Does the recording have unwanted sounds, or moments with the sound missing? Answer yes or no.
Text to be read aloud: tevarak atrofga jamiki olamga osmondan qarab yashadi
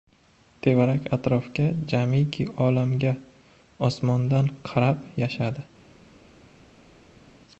no